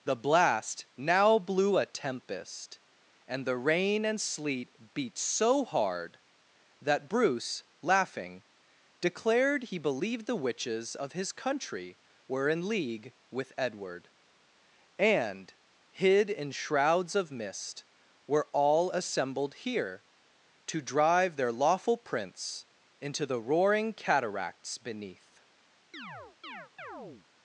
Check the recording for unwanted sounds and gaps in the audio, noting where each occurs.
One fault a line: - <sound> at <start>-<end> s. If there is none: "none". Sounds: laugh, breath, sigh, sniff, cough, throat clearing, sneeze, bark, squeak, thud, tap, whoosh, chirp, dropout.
- chirp at 25.9-27.3 s